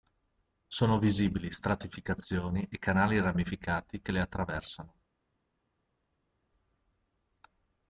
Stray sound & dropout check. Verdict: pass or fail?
pass